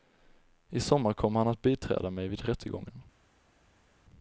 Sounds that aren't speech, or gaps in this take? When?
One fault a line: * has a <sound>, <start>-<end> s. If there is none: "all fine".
all fine